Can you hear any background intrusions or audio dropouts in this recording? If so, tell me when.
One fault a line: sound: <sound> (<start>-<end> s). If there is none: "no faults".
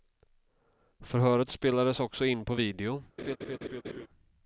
sound: laugh (3.2-4.1 s)